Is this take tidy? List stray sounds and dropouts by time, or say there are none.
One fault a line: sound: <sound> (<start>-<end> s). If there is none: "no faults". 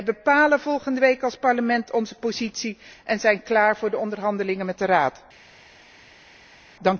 no faults